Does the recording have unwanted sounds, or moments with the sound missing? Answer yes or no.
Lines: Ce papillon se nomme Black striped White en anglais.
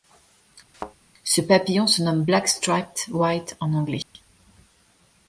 yes